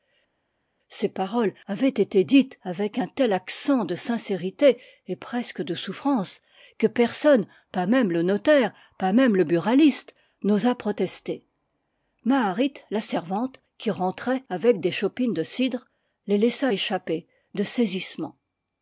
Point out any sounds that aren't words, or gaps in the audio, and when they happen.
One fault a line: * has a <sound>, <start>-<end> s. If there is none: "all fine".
all fine